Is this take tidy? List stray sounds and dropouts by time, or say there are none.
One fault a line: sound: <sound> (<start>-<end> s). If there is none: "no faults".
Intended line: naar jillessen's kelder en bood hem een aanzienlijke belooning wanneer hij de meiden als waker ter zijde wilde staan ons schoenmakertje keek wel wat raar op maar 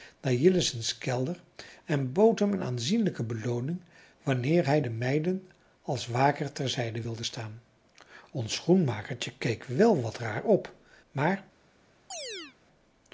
sound: chirp (12.1-12.6 s)